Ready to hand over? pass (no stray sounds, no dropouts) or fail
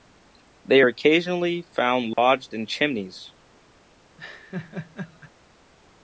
fail